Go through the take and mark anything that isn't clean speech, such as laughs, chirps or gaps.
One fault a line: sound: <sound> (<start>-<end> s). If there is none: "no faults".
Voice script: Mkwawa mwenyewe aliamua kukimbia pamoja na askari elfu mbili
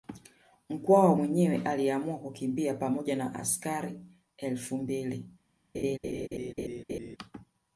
sound: laugh (5.7-7.2 s)